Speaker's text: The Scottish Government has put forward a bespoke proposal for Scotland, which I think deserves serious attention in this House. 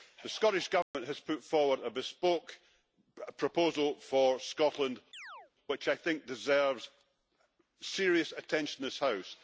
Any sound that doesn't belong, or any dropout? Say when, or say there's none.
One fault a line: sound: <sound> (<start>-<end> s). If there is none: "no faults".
sound: dropout (0.8-0.9 s)
sound: chirp (5.1-5.5 s)